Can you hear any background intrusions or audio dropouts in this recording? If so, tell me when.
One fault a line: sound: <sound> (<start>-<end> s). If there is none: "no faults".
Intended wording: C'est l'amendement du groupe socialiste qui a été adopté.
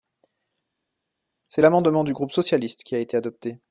no faults